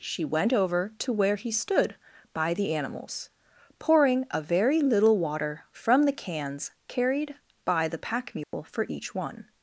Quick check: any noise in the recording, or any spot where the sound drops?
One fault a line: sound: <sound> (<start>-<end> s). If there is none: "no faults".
sound: dropout (8.4-8.5 s)